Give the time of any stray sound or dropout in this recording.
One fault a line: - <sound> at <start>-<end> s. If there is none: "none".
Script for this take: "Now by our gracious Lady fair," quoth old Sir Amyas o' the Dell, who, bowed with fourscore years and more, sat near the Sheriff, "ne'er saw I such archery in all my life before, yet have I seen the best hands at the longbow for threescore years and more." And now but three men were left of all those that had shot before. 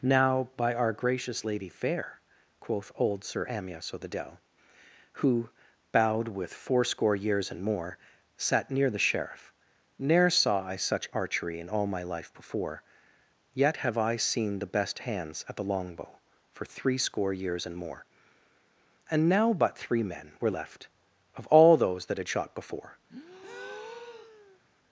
- breath at 23.1-24.6 s